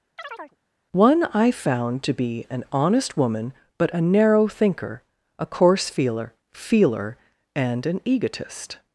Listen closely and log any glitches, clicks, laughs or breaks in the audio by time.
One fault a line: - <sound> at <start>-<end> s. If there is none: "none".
- chirp at 0.2-0.6 s